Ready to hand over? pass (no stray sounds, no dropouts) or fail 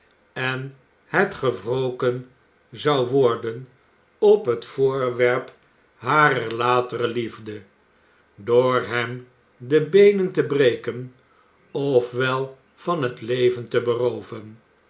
pass